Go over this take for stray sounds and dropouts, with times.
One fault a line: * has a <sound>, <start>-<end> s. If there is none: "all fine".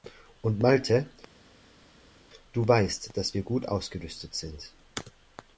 all fine